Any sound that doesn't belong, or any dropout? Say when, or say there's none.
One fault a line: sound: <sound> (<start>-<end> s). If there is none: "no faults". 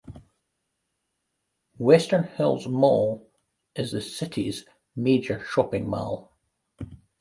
no faults